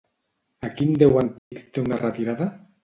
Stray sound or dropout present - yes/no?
yes